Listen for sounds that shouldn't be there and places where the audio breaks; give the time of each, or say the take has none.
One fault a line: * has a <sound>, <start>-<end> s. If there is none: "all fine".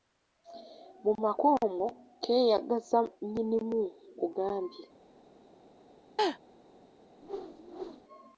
* has a laugh, 6.2-6.4 s
* has a whoosh, 7.2-8.0 s